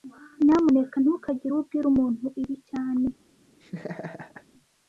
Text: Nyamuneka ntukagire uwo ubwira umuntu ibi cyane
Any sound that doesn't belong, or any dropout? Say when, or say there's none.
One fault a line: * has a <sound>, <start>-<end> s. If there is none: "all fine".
* has a laugh, 3.6-4.5 s